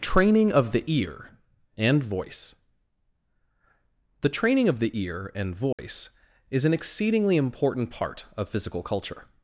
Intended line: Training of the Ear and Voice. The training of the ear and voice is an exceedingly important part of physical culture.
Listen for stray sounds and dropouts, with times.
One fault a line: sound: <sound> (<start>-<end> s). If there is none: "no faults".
sound: dropout (5.7-5.8 s)